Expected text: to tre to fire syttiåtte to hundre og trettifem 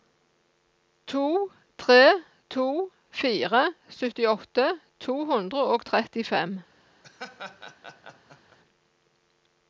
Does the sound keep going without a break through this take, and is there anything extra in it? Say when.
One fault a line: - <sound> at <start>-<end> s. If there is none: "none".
- laugh at 7.0-8.6 s